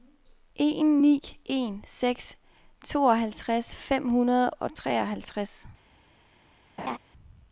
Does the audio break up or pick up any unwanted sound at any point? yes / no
yes